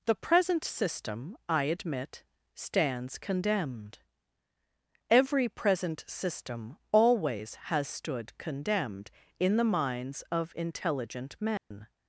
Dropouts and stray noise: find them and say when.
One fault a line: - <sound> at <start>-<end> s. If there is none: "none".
- dropout at 11.6-11.7 s